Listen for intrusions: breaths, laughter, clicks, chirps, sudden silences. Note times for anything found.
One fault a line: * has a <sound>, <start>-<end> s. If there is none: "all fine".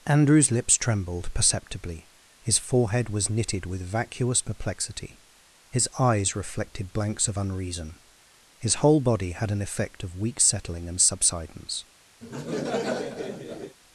* has a laugh, 12.2-13.8 s